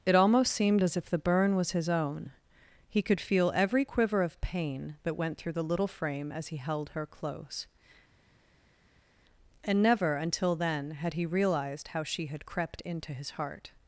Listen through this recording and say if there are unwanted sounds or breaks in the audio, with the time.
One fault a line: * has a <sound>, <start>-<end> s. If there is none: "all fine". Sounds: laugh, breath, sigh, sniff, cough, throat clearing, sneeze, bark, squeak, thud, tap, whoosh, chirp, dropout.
all fine